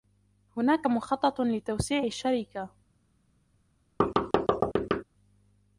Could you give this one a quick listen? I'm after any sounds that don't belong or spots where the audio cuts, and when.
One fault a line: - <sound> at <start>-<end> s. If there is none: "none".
- thud at 4.0-5.0 s